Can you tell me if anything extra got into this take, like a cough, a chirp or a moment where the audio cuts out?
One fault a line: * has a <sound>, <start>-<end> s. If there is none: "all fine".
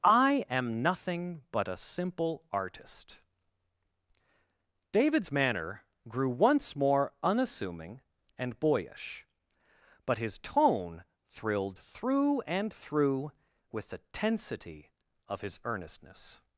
all fine